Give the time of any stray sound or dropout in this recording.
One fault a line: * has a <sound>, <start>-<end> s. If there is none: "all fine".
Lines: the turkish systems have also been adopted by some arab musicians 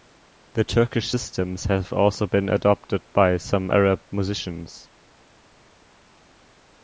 all fine